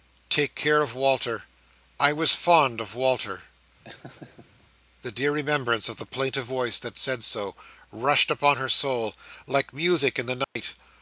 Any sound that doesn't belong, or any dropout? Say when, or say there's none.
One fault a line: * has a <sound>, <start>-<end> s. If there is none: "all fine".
* has a laugh, 3.8-4.6 s
* has a dropout, 10.4-10.6 s